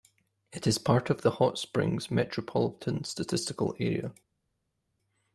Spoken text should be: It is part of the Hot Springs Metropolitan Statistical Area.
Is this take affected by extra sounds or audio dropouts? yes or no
no